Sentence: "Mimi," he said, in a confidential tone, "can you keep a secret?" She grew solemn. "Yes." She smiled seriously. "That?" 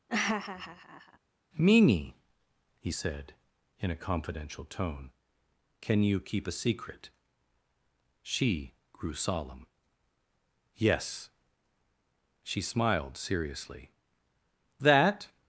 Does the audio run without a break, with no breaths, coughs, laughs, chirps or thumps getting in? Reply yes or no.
no